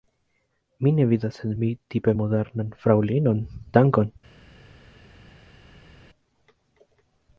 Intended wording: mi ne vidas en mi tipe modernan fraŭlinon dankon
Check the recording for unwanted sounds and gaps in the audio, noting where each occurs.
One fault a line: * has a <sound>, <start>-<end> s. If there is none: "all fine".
all fine